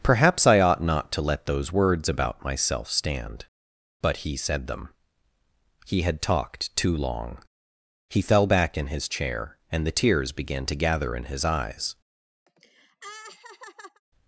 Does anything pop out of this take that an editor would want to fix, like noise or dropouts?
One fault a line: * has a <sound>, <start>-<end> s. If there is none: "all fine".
* has a laugh, 12.5-14.0 s